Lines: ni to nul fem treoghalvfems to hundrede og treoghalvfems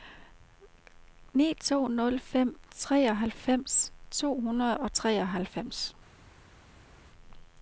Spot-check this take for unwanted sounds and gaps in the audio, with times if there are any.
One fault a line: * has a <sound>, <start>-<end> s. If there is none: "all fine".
all fine